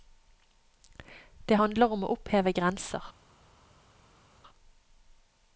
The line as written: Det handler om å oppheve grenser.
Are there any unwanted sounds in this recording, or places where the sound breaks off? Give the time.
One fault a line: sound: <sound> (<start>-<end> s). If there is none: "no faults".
no faults